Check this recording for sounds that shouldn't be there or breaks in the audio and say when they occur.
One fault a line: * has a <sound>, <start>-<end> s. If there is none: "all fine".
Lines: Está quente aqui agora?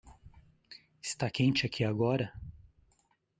all fine